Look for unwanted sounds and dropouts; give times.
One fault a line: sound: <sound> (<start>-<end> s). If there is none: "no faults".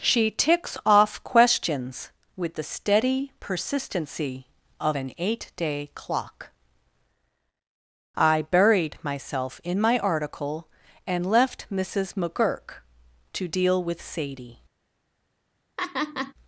sound: laugh (15.8-16.3 s)